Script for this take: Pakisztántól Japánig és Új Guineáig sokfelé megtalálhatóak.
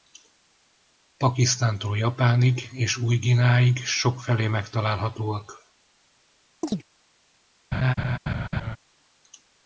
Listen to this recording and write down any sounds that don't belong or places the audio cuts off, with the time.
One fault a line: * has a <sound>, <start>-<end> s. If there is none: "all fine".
* has a chirp, 6.6-6.8 s
* has a laugh, 7.7-8.8 s